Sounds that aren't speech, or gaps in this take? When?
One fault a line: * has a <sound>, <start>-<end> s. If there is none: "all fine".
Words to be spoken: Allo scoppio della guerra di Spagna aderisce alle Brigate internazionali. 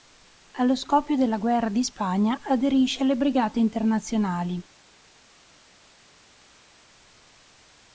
all fine